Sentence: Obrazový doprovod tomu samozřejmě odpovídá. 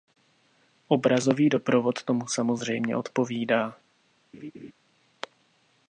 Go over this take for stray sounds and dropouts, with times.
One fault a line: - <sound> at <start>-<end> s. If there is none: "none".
- laugh at 4.3-4.7 s